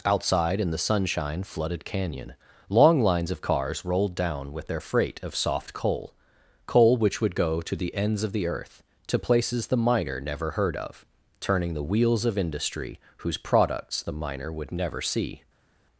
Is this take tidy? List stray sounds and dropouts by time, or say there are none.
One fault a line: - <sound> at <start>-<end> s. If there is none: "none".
none